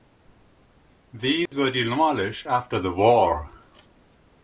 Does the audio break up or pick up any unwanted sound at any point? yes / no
yes